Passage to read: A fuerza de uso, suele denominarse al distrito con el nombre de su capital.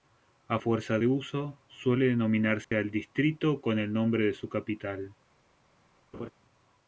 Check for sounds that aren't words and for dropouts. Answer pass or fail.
fail